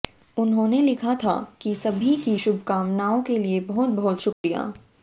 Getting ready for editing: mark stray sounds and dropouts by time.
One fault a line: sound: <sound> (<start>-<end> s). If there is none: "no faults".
sound: dropout (4.3-4.4 s)